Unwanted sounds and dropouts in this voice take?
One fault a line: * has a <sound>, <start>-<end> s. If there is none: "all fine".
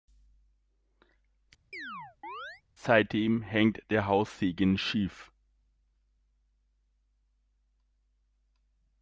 * has a chirp, 1.7-2.6 s